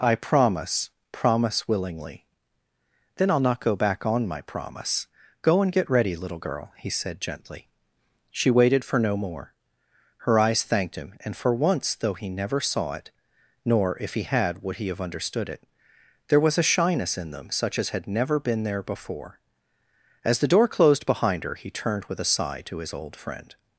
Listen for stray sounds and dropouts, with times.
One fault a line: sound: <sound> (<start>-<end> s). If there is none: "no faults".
no faults